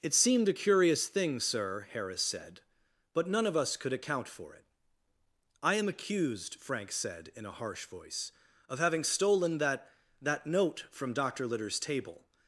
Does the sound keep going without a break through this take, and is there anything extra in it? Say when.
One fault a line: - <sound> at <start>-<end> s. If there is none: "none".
none